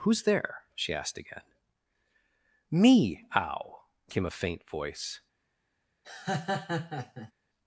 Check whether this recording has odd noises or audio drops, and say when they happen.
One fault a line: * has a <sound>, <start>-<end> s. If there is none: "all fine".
* has a laugh, 6.0-7.3 s